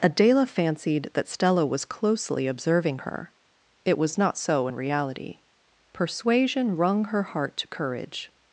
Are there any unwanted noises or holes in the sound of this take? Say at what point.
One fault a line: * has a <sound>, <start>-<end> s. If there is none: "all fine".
all fine